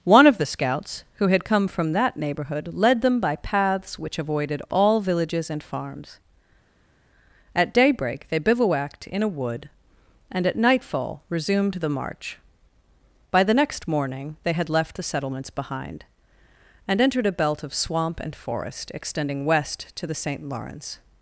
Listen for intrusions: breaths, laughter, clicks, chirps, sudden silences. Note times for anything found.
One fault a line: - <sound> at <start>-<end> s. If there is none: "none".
none